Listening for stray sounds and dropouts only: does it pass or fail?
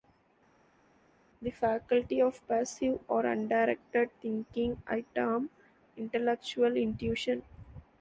pass